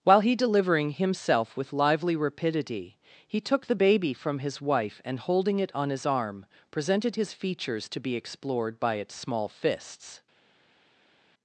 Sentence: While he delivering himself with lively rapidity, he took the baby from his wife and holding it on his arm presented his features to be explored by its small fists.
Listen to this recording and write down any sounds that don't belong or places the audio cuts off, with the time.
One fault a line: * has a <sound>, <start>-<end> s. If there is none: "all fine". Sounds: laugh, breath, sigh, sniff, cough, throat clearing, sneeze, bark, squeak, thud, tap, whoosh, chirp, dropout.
all fine